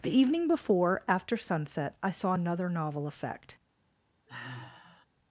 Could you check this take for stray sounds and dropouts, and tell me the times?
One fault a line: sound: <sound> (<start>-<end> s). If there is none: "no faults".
sound: sigh (4.3-5.1 s)